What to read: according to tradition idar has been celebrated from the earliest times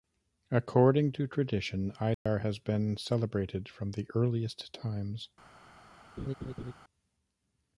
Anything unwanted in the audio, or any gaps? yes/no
yes